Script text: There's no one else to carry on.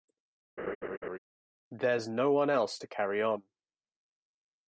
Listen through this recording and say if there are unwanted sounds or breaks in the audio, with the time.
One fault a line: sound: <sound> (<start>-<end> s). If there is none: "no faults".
sound: laugh (0.6-1.2 s)